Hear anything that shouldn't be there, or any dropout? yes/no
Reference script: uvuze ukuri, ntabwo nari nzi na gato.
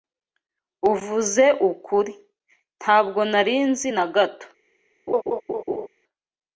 yes